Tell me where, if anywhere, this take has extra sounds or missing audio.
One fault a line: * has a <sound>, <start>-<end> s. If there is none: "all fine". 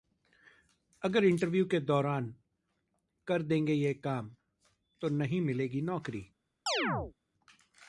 * has a chirp, 6.7-7.1 s